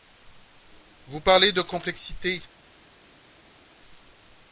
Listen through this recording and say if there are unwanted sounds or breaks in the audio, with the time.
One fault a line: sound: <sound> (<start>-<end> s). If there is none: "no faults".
no faults